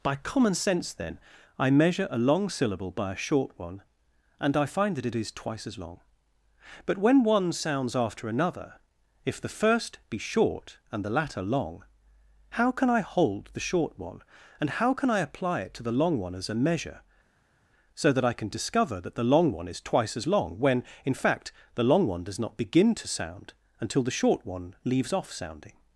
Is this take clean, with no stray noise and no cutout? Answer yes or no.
yes